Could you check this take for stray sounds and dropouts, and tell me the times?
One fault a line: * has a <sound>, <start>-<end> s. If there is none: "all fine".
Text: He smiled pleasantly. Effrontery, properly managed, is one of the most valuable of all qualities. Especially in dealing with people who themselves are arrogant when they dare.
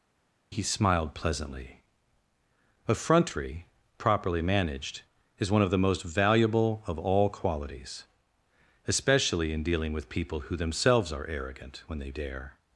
all fine